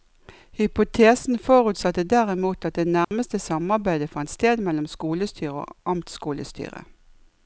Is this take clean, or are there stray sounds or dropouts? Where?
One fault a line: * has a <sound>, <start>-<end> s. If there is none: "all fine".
* has a dropout, 3.0-3.1 s